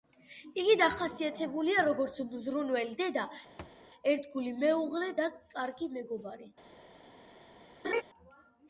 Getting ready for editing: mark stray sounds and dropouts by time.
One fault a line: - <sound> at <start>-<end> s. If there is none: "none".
- thud at 3.6-3.8 s
- laugh at 7.8-8.0 s